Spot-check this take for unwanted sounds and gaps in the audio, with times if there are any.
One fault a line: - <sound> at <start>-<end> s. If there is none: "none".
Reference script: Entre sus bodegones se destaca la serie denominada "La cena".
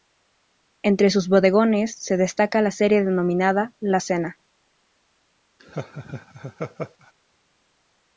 - laugh at 5.6-7.1 s